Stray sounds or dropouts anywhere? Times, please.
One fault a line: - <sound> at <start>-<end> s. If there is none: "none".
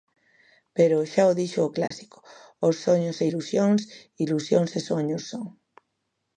- dropout at 1.9-1.9 s